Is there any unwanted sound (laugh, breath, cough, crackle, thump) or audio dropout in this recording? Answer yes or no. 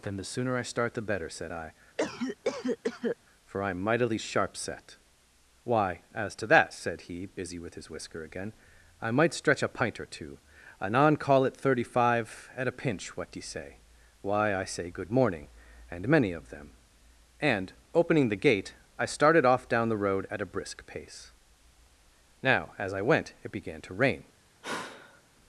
yes